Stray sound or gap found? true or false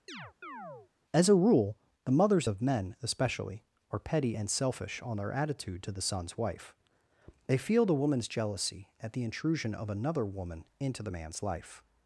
true